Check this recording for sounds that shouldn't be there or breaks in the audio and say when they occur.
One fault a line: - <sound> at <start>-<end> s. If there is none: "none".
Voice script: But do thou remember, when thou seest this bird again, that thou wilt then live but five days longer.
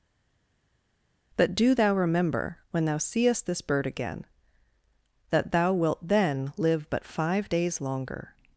none